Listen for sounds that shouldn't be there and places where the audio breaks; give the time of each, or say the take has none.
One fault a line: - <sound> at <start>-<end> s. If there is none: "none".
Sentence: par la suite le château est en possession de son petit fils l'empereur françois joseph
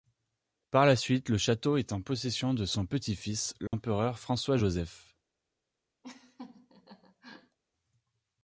- dropout at 3.7-3.7 s
- laugh at 6.0-7.6 s